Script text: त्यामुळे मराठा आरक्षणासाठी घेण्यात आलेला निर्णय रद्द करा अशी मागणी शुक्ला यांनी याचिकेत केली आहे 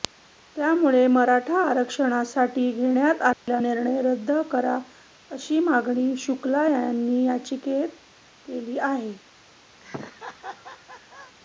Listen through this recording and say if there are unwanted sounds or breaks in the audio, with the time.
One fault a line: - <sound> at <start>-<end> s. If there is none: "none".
- dropout at 3.3-3.5 s
- laugh at 9.8-11.4 s